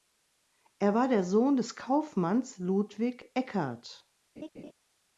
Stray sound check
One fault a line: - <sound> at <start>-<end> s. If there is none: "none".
- laugh at 4.4-4.7 s